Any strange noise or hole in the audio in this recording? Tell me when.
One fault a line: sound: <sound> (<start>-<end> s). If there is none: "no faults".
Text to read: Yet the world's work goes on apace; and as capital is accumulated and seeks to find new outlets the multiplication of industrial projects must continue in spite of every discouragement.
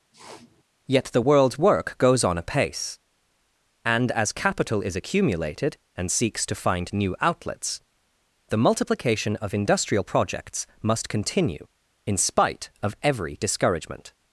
sound: sniff (0.1-0.6 s)